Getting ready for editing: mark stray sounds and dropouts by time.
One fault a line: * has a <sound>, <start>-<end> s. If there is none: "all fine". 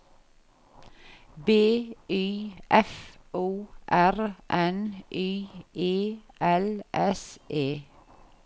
all fine